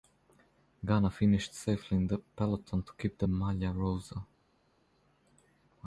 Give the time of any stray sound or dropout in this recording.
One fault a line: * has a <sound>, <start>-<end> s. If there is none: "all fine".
all fine